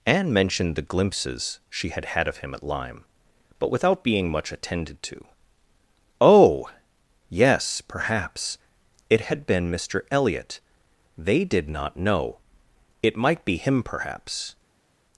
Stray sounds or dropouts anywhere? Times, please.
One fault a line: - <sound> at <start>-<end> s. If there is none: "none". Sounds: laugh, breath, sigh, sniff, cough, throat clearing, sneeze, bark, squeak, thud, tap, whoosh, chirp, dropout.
none